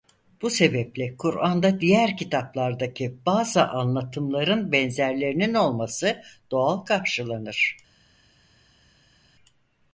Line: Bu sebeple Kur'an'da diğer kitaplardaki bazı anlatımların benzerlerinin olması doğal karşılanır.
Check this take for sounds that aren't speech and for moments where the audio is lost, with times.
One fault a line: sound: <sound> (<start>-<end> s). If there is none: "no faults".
no faults